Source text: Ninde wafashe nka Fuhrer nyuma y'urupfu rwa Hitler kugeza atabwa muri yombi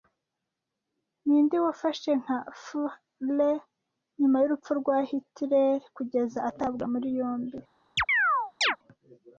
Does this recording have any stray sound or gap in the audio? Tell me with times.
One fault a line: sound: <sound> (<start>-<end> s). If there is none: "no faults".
sound: chirp (8.0-8.8 s)